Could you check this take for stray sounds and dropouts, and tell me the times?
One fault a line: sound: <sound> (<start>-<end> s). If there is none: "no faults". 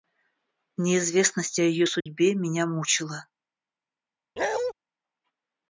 sound: dropout (2.0-2.1 s)
sound: bark (4.4-4.7 s)